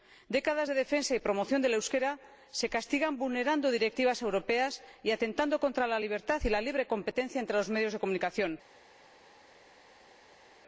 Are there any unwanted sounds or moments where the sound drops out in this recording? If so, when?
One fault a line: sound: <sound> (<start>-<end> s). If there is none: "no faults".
no faults